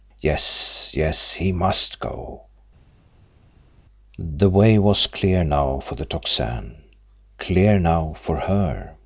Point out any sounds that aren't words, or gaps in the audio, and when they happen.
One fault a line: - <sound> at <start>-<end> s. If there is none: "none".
none